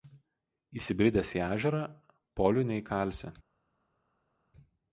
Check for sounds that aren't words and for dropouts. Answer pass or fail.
pass